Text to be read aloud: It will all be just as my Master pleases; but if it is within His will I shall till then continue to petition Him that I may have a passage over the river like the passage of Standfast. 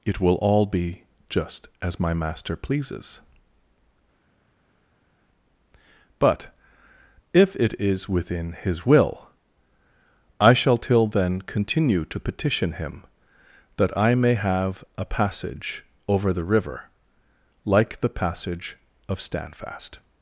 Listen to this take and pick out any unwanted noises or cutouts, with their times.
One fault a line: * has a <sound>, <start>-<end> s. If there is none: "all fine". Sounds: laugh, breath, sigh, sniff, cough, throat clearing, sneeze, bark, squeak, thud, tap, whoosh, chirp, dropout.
all fine